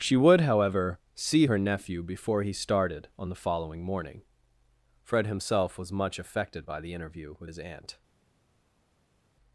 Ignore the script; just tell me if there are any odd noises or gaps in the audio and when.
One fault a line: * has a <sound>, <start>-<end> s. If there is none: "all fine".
all fine